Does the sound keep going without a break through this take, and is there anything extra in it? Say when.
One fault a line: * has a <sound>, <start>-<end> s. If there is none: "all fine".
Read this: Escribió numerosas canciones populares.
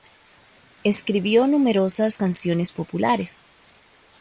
all fine